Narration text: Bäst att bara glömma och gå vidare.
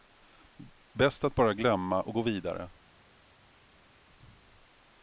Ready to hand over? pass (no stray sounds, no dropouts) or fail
pass